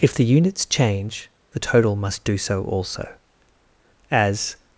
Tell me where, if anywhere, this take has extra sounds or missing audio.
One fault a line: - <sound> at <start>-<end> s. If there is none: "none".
none